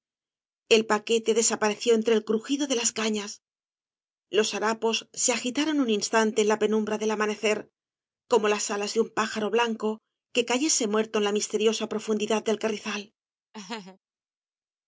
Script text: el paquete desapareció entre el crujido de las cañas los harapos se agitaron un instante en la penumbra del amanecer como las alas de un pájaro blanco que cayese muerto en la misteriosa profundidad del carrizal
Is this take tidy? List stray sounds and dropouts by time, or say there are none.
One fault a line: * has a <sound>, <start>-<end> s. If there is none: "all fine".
* has a laugh, 13.5-14.0 s